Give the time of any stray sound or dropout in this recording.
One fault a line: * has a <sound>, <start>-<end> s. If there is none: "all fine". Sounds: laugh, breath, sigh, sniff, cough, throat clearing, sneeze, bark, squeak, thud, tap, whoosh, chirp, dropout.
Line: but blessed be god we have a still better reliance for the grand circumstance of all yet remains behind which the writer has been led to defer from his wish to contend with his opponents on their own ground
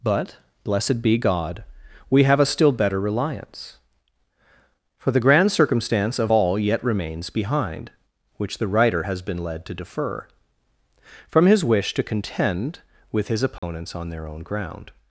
* has a dropout, 13.6-13.6 s